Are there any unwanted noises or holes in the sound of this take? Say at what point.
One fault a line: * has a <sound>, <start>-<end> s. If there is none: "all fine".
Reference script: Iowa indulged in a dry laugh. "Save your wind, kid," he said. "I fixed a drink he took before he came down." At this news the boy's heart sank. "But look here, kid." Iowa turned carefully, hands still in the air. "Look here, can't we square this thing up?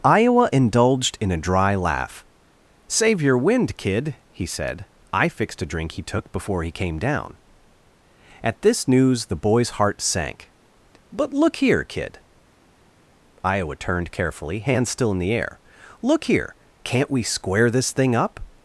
all fine